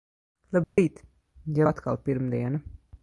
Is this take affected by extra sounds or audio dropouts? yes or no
yes